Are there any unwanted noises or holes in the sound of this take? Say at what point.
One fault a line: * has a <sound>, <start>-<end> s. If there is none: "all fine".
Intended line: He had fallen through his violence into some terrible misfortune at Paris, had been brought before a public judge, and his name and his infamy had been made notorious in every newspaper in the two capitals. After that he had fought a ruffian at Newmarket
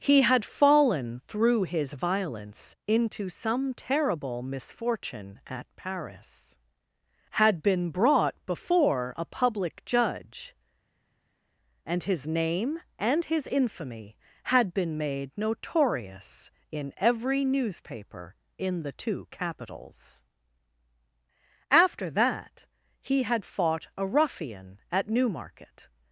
all fine